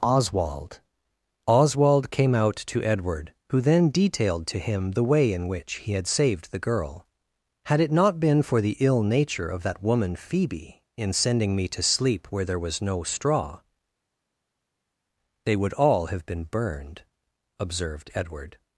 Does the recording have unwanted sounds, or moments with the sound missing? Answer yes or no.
no